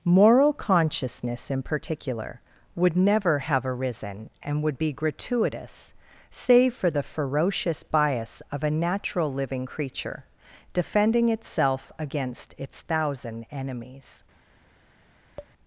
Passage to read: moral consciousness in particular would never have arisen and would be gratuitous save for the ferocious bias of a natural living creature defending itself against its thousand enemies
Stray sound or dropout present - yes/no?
yes